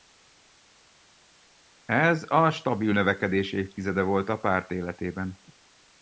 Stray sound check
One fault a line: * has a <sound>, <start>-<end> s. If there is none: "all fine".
all fine